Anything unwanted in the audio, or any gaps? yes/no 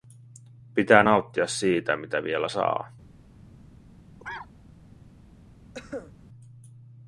yes